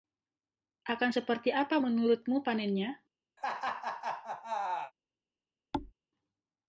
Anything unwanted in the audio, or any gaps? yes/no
yes